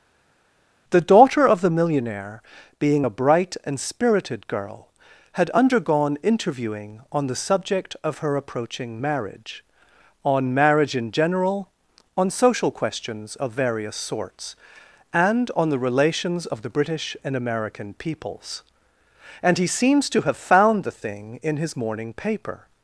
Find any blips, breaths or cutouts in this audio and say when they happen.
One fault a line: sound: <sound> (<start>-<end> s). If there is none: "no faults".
no faults